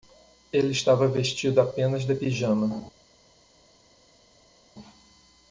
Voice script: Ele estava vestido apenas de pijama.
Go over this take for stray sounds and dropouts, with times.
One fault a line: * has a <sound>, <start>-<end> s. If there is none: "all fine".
all fine